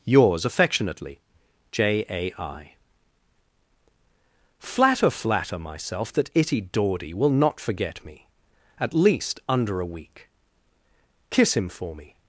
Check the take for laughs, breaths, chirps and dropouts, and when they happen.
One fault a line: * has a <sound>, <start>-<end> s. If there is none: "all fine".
all fine